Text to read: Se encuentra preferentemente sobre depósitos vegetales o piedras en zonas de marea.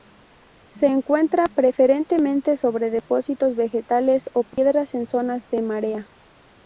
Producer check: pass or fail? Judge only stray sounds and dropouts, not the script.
fail